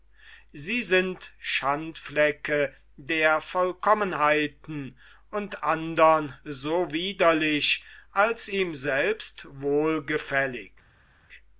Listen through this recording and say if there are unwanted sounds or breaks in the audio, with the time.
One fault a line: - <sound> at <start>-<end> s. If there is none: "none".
none